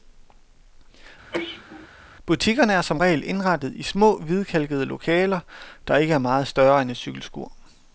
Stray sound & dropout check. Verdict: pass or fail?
fail